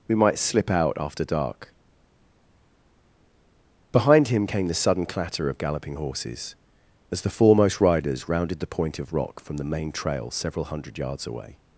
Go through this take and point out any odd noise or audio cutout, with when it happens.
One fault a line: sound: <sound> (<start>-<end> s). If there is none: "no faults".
no faults